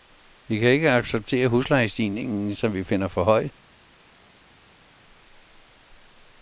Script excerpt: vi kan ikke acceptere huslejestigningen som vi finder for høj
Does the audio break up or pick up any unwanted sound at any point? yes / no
no